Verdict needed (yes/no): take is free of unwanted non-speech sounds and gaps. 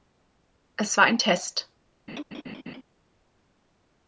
no